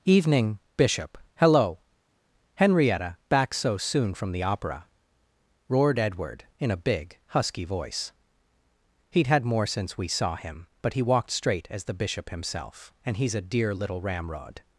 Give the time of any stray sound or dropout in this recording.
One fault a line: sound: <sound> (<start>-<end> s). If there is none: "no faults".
no faults